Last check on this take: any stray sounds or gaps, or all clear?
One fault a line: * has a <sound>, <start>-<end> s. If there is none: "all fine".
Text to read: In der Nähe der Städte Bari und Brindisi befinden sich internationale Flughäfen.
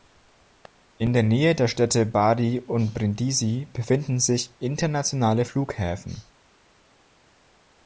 all fine